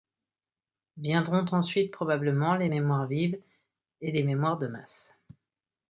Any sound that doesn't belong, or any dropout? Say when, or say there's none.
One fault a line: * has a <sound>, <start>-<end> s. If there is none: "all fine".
all fine